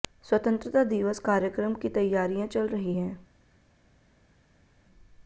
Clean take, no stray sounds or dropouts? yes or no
yes